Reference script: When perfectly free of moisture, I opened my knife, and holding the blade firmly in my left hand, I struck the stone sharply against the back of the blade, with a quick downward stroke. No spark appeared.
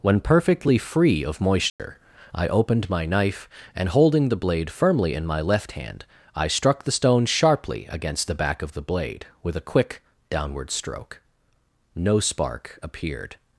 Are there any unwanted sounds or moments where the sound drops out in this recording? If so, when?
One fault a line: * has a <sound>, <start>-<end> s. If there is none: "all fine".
* has a dropout, 1.7-1.8 s